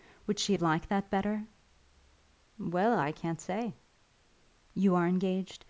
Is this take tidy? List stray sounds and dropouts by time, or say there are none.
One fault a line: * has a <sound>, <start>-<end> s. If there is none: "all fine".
all fine